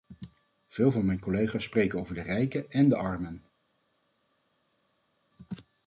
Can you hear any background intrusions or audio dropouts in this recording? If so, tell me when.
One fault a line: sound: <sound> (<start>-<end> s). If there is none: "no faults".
no faults